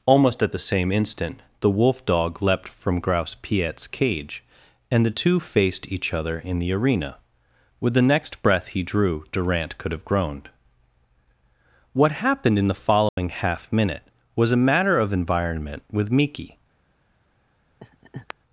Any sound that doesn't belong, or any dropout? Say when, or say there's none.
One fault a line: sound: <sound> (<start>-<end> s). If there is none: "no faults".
sound: dropout (13.1-13.2 s)
sound: laugh (17.8-18.3 s)